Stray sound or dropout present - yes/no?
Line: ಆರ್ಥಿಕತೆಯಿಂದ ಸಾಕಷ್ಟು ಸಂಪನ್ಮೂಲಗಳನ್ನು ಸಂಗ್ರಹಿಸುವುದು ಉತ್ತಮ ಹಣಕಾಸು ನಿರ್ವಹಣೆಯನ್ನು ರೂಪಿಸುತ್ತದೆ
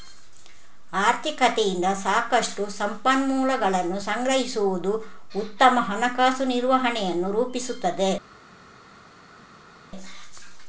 no